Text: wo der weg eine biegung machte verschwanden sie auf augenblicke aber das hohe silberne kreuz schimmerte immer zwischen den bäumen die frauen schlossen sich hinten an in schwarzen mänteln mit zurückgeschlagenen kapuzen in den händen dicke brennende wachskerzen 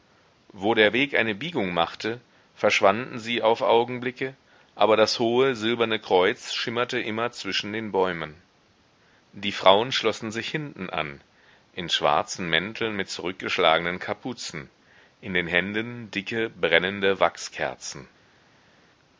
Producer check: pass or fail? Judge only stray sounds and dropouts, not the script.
pass